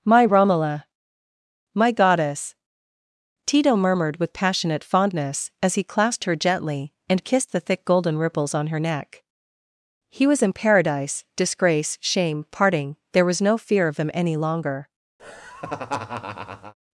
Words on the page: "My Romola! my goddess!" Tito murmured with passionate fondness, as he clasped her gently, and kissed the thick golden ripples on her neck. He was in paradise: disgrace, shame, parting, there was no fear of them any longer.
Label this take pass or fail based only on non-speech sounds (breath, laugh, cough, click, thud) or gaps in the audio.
fail